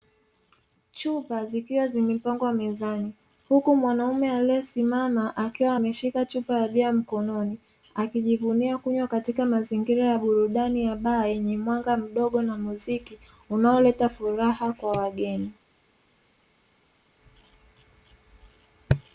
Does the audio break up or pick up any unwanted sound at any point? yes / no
no